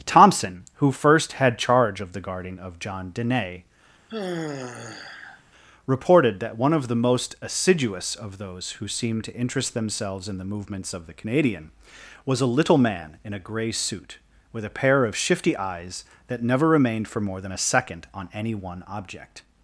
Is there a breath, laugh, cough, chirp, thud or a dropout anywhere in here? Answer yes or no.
yes